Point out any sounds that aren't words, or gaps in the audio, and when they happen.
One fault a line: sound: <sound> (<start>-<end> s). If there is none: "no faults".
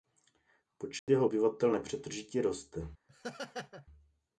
sound: dropout (1.0-1.1 s)
sound: laugh (3.1-3.9 s)